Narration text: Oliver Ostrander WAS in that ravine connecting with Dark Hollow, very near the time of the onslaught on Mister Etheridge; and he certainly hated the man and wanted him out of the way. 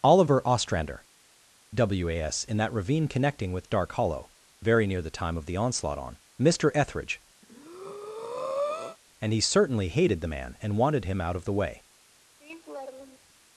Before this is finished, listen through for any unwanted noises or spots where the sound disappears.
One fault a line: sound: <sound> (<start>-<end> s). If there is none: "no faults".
sound: breath (7.4-9.0 s)
sound: laugh (12.4-13.3 s)